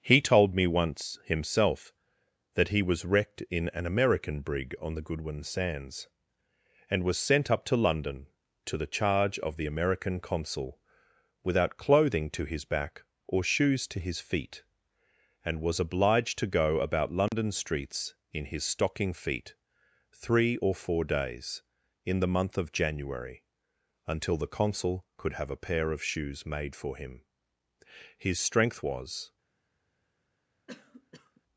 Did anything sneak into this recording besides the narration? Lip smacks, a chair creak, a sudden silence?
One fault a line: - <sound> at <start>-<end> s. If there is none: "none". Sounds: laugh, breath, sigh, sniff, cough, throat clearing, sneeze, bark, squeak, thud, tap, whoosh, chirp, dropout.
- dropout at 17.3-17.3 s
- cough at 30.7-31.4 s